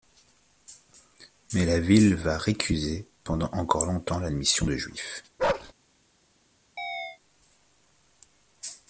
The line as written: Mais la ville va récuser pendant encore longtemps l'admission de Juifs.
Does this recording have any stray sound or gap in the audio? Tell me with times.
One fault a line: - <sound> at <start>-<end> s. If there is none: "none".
- bark at 5.4-5.7 s
- chirp at 6.8-7.2 s